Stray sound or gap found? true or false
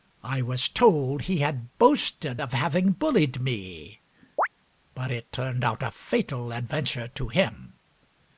true